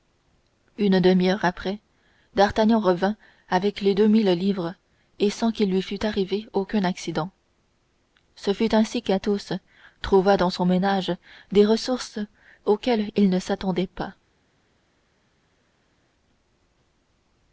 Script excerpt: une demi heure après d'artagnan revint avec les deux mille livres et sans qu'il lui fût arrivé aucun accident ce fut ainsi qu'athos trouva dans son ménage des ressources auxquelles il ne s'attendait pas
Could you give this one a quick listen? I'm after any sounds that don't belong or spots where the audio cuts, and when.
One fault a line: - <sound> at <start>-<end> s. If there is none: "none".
none